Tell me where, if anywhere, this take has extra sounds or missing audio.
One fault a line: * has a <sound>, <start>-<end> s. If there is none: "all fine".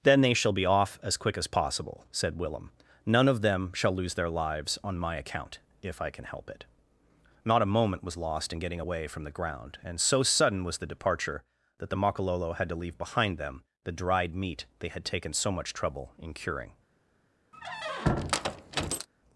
* has a squeak, 17.5-19.1 s